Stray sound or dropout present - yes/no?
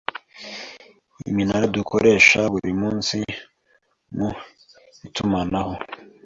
no